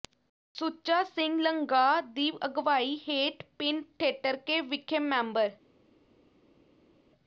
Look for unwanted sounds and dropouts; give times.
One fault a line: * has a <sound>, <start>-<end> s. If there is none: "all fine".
all fine